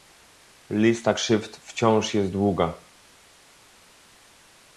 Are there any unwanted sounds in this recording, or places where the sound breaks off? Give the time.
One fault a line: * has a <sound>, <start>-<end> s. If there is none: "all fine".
all fine